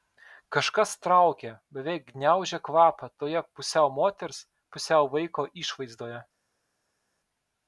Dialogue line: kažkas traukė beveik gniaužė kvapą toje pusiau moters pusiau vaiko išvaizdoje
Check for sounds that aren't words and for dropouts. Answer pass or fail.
pass